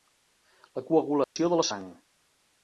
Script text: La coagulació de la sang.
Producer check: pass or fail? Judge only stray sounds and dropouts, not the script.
fail